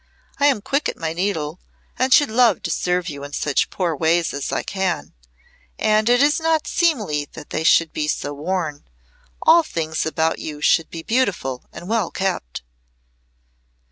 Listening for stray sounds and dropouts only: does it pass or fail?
pass